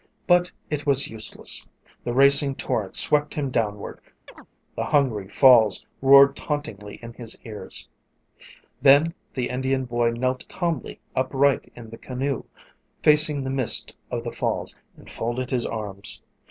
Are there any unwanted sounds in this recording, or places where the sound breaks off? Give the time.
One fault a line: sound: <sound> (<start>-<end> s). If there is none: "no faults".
sound: chirp (4.3-4.5 s)